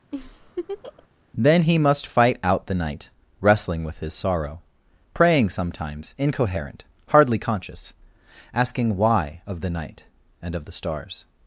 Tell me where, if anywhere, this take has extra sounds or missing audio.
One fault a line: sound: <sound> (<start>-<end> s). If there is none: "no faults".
sound: laugh (0.1-1.1 s)